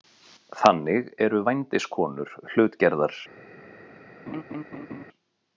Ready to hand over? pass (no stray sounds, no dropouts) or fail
fail